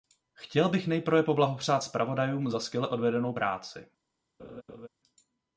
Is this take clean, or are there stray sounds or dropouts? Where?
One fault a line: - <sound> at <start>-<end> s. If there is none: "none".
- laugh at 4.4-4.9 s